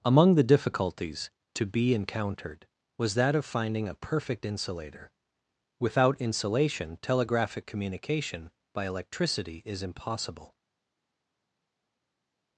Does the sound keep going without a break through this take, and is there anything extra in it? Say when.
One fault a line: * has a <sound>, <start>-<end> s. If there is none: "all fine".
all fine